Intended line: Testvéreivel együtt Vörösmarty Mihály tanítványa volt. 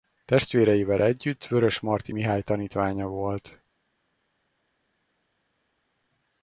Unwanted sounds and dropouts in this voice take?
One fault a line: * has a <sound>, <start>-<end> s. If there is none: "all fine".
all fine